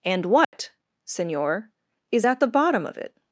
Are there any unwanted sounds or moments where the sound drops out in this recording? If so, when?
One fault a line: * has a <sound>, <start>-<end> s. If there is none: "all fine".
* has a dropout, 0.4-0.5 s